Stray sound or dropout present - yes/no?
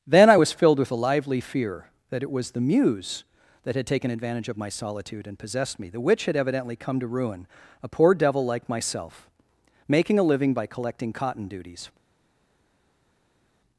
no